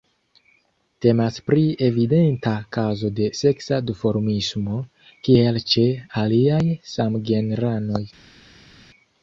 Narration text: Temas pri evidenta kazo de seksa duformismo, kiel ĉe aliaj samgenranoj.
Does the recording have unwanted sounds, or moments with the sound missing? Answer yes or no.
no